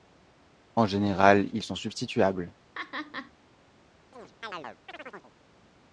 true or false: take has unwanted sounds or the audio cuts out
true